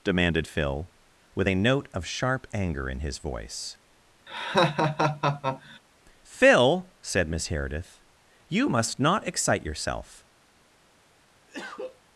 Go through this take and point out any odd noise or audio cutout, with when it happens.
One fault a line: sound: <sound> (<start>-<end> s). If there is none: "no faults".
sound: laugh (4.3-5.8 s)
sound: cough (11.5-12.0 s)